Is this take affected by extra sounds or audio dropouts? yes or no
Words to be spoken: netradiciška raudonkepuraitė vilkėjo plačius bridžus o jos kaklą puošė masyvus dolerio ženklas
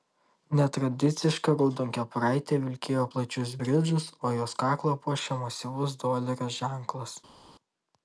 no